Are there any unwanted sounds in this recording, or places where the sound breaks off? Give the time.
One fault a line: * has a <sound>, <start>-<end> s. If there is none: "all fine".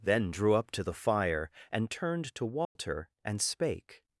* has a dropout, 2.6-2.8 s